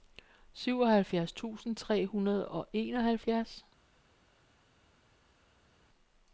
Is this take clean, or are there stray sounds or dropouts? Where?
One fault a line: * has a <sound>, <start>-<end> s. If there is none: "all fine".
all fine